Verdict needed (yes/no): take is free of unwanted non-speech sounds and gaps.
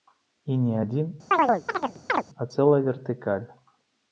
no